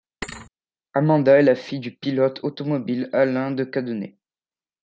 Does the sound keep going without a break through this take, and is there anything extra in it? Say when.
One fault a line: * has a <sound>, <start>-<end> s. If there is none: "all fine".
* has a thud, 0.2-0.5 s